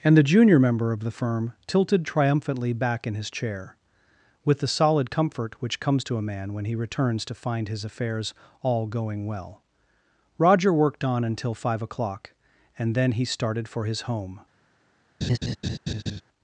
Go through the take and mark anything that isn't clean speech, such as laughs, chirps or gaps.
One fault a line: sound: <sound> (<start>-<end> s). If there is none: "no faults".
sound: laugh (15.2-16.2 s)